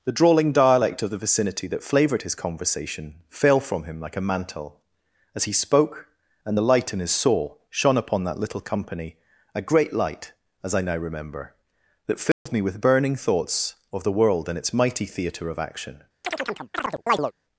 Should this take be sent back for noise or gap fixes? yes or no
yes